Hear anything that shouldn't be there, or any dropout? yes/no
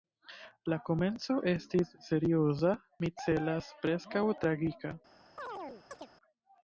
yes